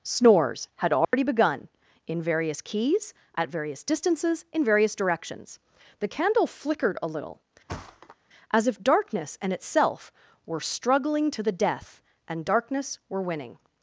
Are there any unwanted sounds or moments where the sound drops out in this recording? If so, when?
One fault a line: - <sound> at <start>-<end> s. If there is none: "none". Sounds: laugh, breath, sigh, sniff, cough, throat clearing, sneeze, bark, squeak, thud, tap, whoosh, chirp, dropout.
- dropout at 1.0-1.1 s
- thud at 7.7-8.2 s